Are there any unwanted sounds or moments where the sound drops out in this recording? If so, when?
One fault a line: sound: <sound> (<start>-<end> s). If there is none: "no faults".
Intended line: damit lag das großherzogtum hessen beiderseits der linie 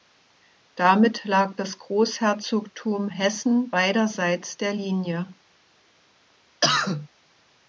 sound: cough (6.6-7.1 s)